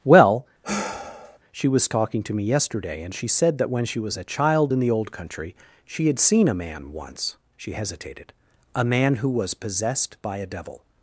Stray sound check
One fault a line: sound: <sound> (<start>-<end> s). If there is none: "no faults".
sound: sigh (0.6-1.4 s)